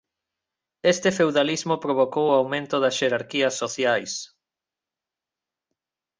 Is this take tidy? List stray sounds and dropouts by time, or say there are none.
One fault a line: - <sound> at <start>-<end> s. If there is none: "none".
none